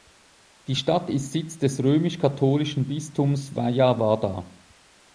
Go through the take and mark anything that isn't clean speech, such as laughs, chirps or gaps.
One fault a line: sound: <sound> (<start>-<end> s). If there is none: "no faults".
no faults